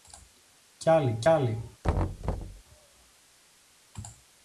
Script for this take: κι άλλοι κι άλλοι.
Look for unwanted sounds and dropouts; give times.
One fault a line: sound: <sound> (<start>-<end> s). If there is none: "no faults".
sound: thud (1.8-2.6 s)